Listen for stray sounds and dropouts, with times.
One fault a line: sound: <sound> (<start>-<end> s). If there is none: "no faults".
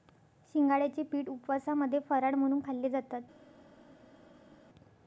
no faults